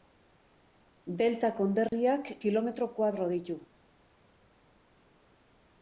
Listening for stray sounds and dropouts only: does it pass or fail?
fail